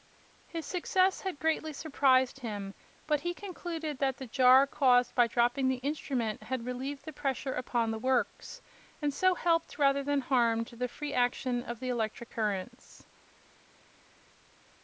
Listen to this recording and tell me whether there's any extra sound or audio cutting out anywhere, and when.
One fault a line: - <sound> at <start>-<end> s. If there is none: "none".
none